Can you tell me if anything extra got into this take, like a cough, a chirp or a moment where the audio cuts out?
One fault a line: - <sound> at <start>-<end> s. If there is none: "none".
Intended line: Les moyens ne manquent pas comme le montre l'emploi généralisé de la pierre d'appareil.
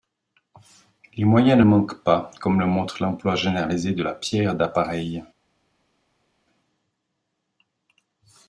none